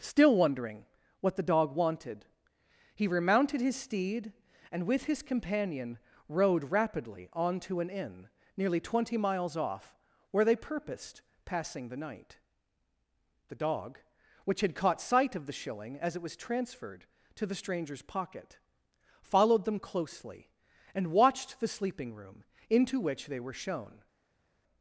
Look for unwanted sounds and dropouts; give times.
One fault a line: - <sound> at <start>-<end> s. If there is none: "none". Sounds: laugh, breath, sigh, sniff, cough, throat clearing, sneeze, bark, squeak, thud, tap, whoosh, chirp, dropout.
none